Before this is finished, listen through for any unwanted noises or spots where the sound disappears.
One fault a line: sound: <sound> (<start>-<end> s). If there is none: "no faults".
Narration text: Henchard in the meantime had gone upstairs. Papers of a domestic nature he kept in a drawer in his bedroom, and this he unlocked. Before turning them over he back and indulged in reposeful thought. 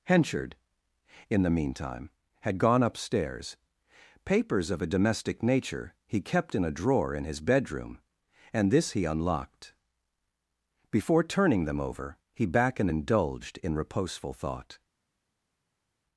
no faults